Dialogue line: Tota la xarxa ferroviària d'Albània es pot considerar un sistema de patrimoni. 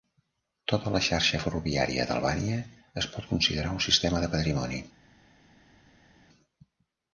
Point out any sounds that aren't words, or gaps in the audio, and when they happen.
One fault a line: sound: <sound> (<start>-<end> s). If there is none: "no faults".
no faults